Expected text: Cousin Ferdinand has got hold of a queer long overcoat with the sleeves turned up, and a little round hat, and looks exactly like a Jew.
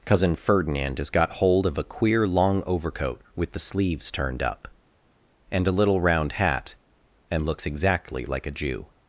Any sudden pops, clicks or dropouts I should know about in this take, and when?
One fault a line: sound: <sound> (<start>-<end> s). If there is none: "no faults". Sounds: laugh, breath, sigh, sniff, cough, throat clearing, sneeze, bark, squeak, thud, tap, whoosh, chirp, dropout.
no faults